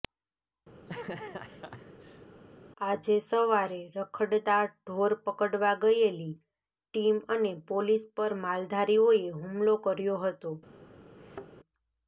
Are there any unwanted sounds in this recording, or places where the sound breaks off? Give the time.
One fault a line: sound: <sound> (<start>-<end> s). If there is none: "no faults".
sound: laugh (0.7-2.3 s)
sound: thud (11.2-11.5 s)